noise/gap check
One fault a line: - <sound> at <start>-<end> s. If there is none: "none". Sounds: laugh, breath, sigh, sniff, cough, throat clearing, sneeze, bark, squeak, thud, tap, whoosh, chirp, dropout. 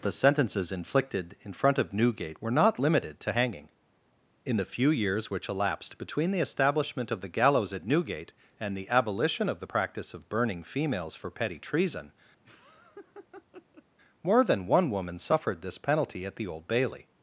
- laugh at 12.4-13.8 s